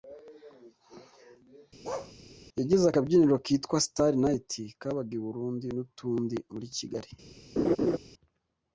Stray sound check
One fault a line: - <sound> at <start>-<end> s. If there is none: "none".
- bark at 1.8-2.1 s
- laugh at 7.6-8.0 s